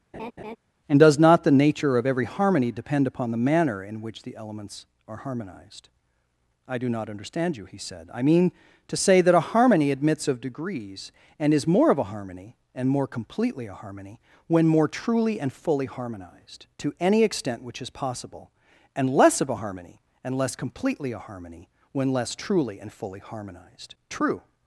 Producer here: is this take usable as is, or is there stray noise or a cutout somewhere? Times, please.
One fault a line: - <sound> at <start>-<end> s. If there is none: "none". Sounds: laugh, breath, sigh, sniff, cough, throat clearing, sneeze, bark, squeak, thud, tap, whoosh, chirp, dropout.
- laugh at 0.1-0.6 s